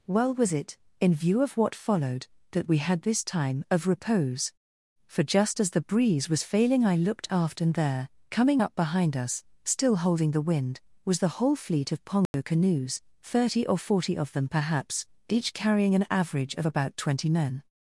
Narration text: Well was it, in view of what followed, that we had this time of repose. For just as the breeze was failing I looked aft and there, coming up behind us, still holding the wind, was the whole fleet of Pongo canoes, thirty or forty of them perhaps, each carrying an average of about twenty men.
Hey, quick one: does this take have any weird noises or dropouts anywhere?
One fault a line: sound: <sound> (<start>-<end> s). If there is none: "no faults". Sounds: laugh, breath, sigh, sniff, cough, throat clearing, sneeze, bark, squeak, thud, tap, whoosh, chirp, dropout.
sound: dropout (12.3-12.3 s)